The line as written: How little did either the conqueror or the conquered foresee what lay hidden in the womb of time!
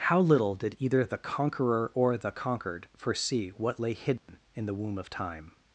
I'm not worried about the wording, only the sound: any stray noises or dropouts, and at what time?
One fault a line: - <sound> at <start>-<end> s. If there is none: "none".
- dropout at 4.2-4.3 s